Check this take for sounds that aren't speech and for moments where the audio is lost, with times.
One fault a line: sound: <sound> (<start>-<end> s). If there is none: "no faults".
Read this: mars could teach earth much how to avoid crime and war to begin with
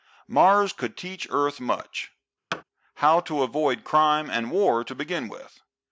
sound: thud (2.5-2.6 s)